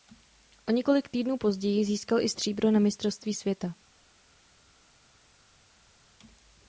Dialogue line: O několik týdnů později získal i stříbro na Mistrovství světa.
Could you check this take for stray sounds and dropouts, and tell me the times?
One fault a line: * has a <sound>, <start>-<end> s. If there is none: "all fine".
all fine